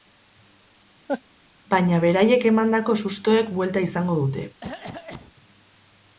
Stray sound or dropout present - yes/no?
yes